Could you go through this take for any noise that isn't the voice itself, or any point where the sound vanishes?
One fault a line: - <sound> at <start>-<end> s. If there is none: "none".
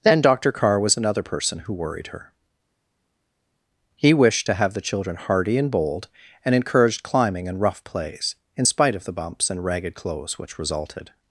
none